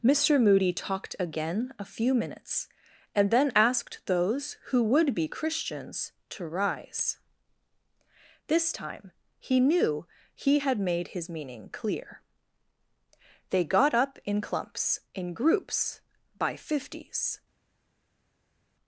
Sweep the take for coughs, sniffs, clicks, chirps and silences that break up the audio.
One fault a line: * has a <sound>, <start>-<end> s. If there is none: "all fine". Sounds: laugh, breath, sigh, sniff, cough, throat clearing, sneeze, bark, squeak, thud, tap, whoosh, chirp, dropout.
all fine